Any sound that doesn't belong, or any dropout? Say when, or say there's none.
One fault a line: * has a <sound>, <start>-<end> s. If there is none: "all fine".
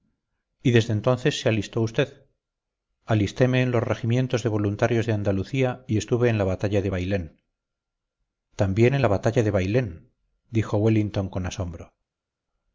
all fine